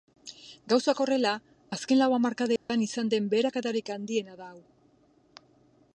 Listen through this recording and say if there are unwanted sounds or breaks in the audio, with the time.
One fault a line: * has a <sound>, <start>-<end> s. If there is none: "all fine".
* has a dropout, 2.6-2.7 s